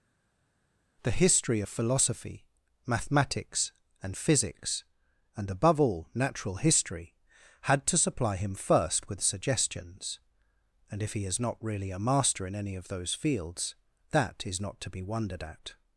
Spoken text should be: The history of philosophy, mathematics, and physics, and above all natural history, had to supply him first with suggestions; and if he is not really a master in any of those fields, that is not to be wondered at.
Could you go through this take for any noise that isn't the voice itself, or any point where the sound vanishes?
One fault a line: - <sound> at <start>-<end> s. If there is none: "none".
none